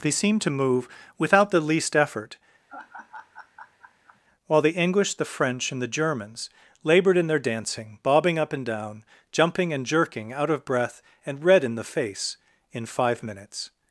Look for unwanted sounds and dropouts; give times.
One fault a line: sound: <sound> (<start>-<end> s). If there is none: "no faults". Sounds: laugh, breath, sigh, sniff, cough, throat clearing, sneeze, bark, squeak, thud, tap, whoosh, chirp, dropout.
sound: laugh (2.7-4.2 s)